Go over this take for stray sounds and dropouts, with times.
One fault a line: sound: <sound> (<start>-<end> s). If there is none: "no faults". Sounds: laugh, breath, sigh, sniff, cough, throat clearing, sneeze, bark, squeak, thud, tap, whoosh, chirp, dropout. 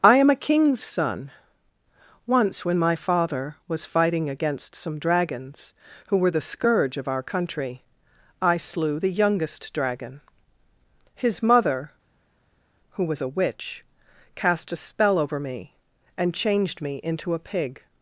no faults